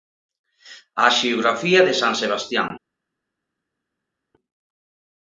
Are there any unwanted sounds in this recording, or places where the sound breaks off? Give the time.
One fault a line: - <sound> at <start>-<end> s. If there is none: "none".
none